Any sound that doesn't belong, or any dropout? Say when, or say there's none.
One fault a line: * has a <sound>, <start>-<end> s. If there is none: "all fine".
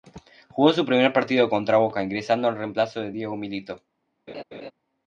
* has a laugh, 4.3-4.7 s